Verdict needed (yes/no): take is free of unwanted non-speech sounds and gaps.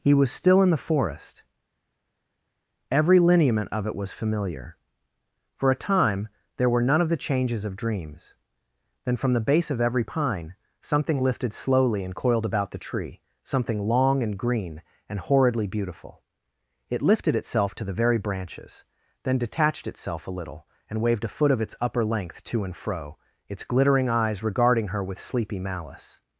yes